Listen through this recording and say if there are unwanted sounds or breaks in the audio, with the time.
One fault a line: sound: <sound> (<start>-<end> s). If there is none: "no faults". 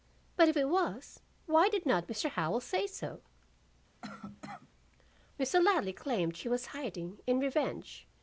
sound: cough (4.0-4.7 s)